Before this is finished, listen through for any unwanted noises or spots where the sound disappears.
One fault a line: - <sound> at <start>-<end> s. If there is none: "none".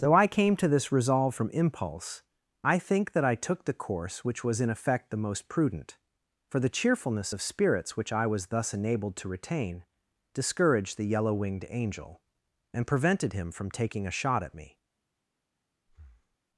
- breath at 15.9-16.4 s